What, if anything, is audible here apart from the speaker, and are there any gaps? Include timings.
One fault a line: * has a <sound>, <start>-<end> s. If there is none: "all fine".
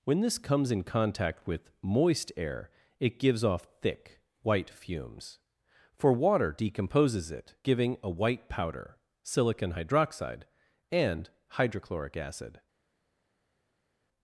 all fine